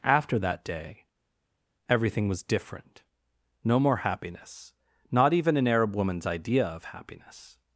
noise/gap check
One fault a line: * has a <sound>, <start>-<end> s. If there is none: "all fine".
all fine